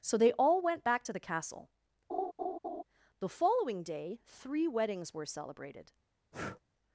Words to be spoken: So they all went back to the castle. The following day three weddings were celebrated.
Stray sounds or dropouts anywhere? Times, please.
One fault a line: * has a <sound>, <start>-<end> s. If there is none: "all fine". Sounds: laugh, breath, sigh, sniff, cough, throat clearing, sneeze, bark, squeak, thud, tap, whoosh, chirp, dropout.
* has a laugh, 2.1-2.8 s
* has a breath, 6.3-6.6 s